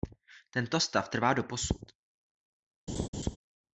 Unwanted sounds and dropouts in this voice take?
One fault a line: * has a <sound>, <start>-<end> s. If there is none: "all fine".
* has a laugh, 2.9-3.4 s